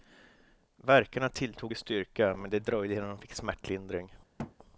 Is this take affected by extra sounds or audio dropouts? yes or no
yes